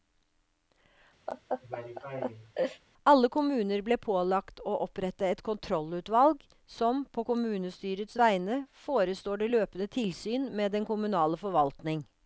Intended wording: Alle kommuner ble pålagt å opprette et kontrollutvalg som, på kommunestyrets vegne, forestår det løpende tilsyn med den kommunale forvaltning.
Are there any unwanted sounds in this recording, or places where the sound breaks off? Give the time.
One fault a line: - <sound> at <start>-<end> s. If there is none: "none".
- laugh at 1.3-2.8 s